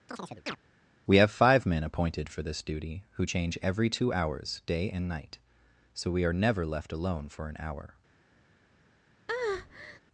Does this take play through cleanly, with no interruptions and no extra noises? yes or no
no